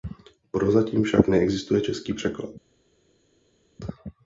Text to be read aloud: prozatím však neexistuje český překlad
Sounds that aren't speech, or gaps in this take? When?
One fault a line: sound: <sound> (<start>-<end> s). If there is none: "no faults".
no faults